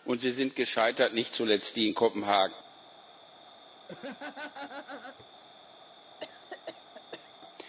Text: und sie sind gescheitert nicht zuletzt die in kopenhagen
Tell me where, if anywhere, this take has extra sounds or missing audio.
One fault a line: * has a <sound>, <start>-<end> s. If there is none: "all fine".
* has a laugh, 3.9-5.3 s
* has a cough, 6.2-7.3 s